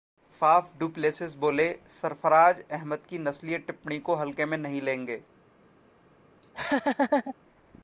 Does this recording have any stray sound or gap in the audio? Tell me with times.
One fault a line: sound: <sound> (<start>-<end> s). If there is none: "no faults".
sound: laugh (6.4-7.3 s)